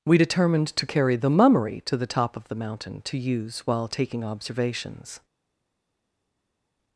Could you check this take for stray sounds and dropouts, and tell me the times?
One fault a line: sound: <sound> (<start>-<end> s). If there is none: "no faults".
no faults